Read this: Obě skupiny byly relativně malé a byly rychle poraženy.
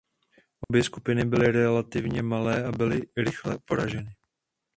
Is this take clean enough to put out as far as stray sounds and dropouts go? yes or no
no